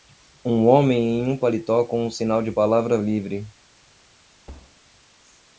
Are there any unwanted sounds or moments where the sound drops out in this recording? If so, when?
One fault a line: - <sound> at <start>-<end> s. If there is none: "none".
- thud at 4.5-4.8 s